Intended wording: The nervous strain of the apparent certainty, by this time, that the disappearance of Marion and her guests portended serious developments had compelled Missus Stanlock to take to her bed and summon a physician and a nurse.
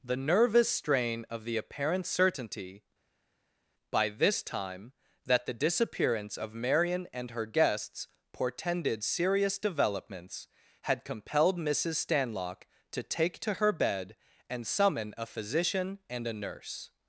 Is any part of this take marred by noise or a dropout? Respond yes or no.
no